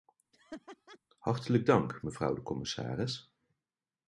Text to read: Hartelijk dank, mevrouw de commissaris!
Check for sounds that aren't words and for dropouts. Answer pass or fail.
fail